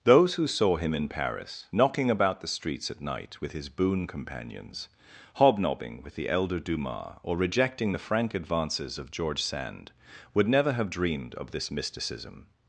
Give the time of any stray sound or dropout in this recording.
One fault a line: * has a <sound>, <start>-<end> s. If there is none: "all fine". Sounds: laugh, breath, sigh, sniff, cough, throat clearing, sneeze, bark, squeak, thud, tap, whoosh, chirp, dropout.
all fine